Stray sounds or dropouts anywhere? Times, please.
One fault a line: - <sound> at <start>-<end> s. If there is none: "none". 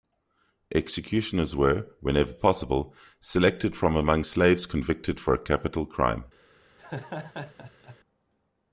- laugh at 6.8-8.0 s